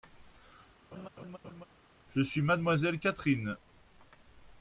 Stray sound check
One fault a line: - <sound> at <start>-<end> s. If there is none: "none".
- laugh at 0.9-1.6 s